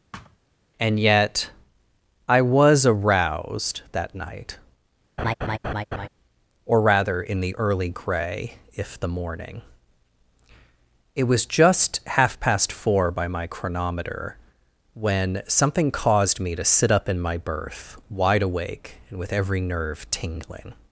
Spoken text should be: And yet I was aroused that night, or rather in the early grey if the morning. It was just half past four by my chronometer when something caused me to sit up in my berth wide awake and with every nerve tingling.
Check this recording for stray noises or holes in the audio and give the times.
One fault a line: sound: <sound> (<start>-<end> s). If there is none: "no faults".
sound: thud (0.1-0.4 s)
sound: laugh (5.2-6.1 s)